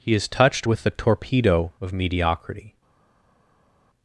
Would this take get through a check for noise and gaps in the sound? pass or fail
pass